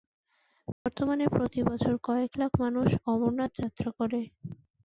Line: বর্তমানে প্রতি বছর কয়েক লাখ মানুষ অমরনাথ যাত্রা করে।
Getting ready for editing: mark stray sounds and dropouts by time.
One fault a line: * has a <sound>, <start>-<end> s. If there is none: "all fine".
* has a dropout, 0.7-0.9 s